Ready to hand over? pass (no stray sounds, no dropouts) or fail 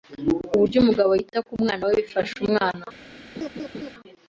fail